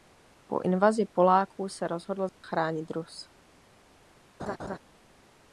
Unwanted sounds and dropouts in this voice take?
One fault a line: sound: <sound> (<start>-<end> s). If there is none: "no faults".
sound: dropout (2.3-2.4 s)
sound: laugh (4.4-4.8 s)